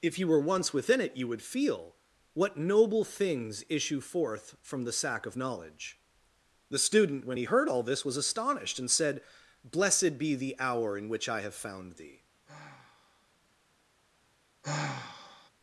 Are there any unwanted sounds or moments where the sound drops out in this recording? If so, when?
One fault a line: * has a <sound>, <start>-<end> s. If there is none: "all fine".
* has a sigh, 12.5-13.3 s
* has a sigh, 14.6-15.5 s